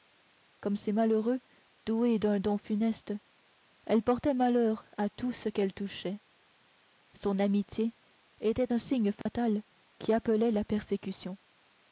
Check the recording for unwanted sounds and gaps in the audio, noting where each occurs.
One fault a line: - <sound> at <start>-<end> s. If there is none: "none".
- dropout at 9.2-9.3 s